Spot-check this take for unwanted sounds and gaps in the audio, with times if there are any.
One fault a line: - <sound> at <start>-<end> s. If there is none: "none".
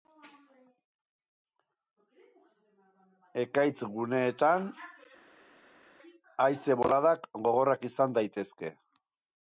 none